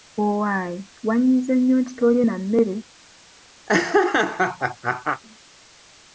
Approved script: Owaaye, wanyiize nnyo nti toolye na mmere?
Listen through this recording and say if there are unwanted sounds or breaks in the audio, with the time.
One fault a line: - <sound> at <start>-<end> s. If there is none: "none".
- laugh at 3.7-5.2 s